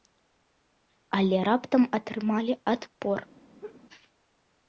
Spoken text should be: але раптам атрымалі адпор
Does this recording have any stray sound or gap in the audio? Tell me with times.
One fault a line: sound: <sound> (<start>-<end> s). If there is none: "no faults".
sound: laugh (3.6-3.8 s)